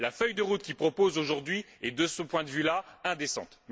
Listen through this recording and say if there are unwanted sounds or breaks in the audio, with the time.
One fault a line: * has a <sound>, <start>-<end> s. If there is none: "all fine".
all fine